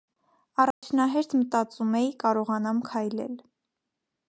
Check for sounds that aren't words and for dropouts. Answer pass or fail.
fail